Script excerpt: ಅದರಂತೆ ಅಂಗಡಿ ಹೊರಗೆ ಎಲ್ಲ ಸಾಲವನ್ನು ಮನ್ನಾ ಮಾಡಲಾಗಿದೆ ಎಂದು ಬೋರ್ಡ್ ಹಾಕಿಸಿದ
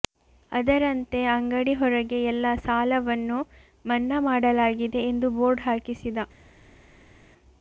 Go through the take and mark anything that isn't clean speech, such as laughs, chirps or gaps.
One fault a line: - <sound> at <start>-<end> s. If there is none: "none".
none